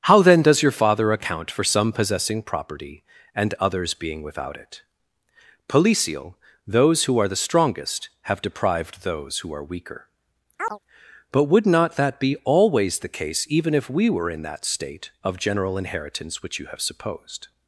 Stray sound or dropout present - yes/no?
yes